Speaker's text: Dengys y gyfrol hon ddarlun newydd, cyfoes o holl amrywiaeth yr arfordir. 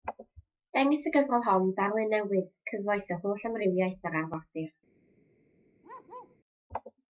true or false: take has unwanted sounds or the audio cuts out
true